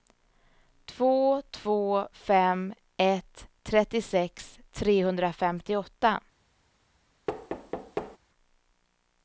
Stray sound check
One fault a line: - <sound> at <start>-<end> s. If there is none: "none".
- thud at 7.3-8.2 s